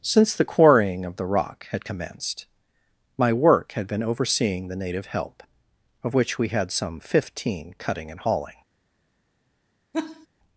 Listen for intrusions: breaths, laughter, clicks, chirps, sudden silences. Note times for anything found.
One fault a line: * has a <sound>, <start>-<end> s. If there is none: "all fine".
* has a laugh, 9.9-10.3 s